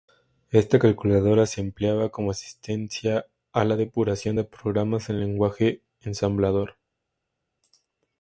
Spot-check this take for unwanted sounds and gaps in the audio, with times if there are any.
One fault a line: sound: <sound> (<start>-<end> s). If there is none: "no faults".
no faults